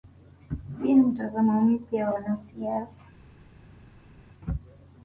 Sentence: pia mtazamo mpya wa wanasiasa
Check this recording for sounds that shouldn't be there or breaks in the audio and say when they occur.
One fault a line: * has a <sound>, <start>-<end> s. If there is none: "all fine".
all fine